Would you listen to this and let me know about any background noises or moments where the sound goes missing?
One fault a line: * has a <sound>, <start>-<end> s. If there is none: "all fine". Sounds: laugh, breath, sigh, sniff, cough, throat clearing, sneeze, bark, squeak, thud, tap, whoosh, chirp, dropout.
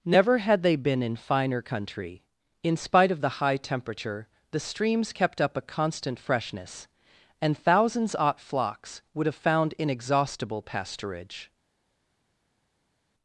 all fine